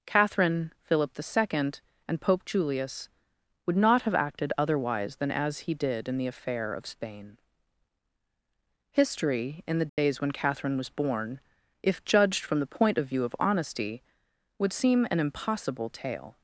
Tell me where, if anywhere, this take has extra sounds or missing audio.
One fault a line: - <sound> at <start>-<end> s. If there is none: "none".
- dropout at 9.9-10.0 s